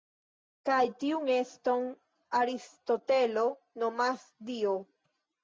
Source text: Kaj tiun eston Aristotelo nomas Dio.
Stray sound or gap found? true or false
false